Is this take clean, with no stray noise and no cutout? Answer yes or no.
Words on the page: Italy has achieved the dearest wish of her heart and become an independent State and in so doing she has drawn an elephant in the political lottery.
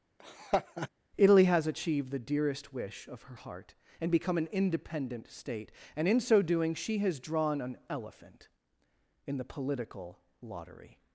no